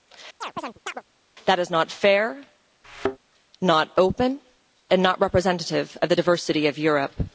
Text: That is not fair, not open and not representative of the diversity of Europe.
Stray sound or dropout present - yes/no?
yes